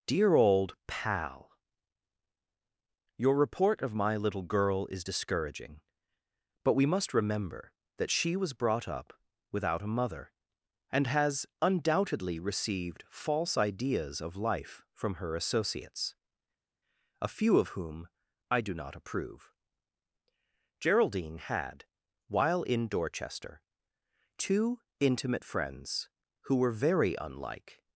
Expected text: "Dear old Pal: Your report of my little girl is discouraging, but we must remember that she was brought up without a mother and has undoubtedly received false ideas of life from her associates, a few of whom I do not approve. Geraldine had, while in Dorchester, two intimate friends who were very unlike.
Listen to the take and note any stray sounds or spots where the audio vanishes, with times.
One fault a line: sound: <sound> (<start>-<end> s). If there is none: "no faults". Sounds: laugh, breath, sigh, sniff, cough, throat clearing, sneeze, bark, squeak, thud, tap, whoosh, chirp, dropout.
no faults